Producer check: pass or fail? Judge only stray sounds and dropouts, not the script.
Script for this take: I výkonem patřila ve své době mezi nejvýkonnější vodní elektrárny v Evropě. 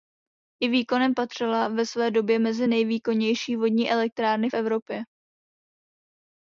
pass